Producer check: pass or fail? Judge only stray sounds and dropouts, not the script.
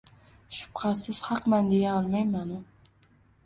pass